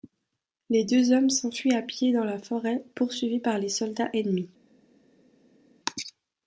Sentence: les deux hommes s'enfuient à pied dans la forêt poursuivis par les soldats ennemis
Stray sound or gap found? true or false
false